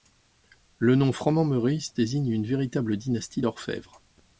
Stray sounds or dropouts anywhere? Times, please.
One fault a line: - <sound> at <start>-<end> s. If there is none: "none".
none